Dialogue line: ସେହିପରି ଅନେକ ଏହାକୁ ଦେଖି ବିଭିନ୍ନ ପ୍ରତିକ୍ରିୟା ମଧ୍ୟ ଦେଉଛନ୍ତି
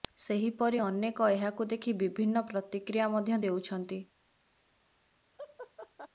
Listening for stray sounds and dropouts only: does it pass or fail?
fail